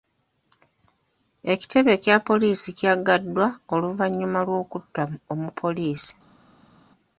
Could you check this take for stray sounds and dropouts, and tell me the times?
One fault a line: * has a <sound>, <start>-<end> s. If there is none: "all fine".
all fine